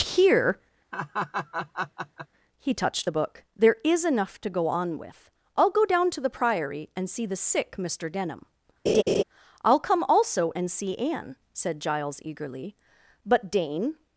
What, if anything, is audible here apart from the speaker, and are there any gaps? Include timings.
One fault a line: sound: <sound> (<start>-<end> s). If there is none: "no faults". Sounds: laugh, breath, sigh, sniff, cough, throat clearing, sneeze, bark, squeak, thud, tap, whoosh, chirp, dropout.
sound: laugh (0.9-2.3 s)
sound: laugh (8.9-9.2 s)